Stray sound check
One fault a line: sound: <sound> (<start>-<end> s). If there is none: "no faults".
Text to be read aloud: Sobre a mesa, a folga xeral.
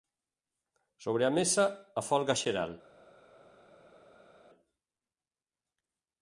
no faults